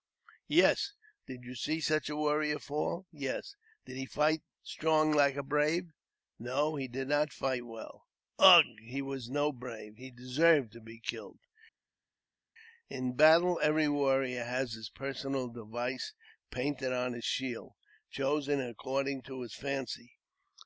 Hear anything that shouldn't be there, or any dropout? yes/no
no